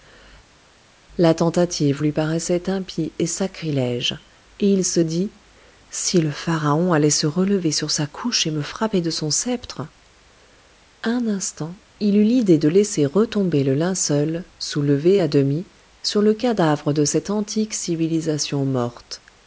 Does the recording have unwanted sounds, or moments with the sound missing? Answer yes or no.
no